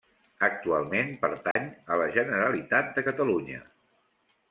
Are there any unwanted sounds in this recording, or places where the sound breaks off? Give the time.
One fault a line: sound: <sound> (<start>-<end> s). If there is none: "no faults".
sound: dropout (1.5-1.6 s)